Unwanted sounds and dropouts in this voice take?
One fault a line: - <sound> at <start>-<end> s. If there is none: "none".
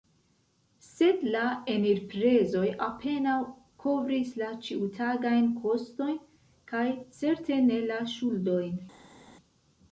none